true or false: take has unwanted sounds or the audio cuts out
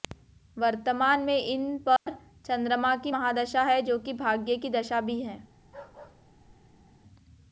true